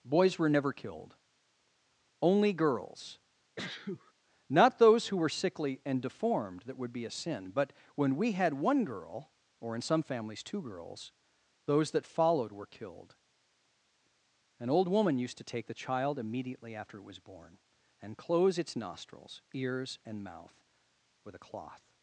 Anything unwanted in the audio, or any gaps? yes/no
yes